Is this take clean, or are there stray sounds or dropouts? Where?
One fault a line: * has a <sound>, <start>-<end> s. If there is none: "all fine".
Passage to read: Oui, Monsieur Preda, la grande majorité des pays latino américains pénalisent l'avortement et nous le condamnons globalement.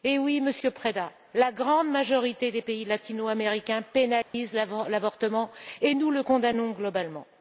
* has a dropout, 4.2-4.3 s